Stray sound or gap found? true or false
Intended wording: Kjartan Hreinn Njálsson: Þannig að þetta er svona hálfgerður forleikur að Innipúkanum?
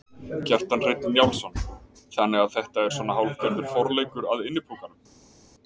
false